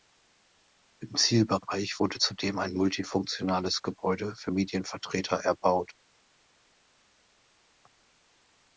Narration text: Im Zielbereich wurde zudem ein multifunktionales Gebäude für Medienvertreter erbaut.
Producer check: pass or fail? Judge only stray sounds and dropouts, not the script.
pass